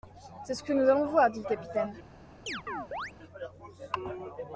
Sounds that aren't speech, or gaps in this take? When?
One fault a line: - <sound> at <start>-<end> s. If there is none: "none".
- chirp at 2.5-3.1 s